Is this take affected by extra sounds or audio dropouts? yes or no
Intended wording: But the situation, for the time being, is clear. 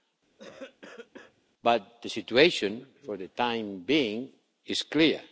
yes